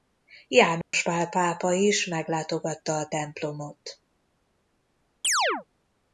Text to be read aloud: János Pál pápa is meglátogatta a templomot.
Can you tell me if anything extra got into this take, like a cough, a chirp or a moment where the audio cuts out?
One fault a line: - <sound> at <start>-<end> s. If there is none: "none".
- dropout at 0.8-0.9 s
- chirp at 5.2-5.6 s